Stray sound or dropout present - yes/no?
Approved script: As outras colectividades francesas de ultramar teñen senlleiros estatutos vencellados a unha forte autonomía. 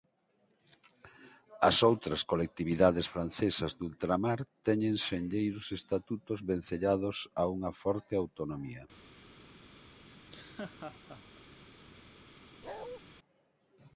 yes